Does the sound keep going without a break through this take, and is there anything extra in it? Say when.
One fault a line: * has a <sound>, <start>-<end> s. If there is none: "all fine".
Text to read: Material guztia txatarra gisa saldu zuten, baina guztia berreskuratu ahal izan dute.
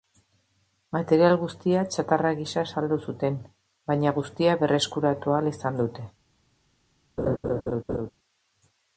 * has a laugh, 7.2-8.1 s